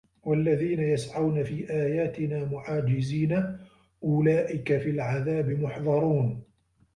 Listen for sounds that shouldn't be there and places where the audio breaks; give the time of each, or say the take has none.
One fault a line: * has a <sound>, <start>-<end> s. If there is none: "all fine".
all fine